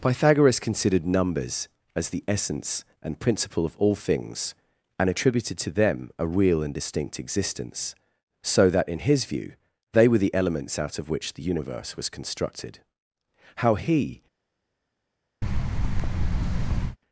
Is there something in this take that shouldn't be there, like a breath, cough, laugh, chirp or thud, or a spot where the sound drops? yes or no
yes